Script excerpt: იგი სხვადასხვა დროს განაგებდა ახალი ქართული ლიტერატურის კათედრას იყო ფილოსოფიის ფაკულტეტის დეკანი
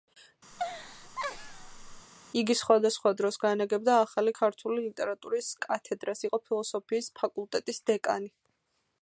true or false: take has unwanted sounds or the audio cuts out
true